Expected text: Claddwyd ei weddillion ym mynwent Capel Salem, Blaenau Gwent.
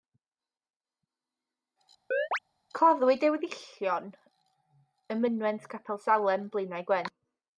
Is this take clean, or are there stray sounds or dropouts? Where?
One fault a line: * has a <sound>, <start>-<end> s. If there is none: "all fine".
* has a chirp, 2.1-2.4 s